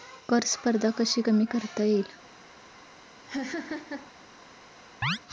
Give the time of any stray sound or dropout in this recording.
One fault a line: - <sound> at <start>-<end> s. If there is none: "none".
- laugh at 3.3-4.1 s
- chirp at 5.0-5.2 s